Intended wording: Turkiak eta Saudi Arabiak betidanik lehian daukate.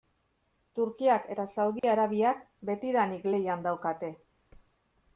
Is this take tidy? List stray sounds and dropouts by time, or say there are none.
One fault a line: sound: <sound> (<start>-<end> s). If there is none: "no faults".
sound: dropout (1.8-1.8 s)